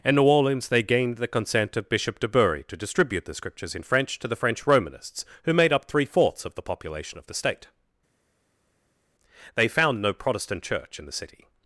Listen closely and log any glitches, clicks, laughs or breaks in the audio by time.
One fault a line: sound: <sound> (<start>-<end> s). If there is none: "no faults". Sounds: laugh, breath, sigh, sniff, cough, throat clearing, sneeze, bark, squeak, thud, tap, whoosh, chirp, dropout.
no faults